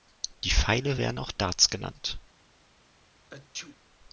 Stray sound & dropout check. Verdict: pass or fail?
fail